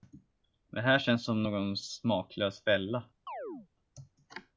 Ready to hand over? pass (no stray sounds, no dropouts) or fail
fail